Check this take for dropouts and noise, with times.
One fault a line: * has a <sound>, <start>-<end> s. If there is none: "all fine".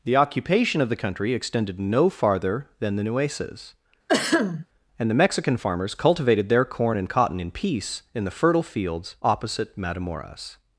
* has a throat clearing, 4.1-4.7 s